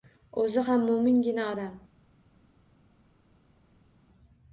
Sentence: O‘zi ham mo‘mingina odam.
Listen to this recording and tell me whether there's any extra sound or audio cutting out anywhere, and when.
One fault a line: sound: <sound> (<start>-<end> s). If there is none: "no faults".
no faults